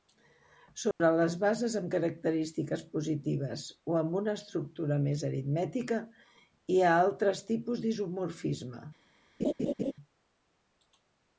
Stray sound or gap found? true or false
true